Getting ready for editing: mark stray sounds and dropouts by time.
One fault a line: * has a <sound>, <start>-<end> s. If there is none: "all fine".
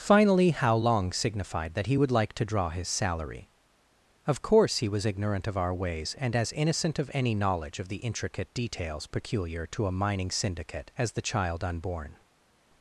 all fine